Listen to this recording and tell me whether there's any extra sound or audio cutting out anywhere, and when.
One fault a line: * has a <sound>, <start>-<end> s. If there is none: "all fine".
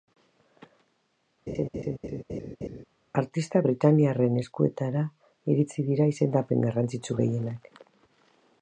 * has a laugh, 1.5-2.8 s